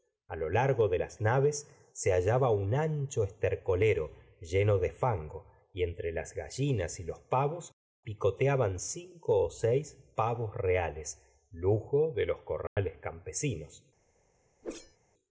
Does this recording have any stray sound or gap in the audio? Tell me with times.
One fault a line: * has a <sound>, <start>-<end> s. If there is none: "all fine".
* has a dropout, 12.7-12.8 s
* has a whoosh, 14.6-15.0 s